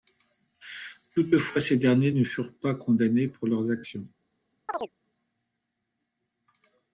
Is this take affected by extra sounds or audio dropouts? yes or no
yes